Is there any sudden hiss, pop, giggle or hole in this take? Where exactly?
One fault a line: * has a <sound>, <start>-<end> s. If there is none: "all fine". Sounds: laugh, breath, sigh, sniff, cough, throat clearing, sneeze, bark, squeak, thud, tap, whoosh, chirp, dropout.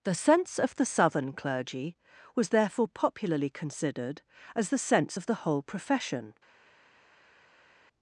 all fine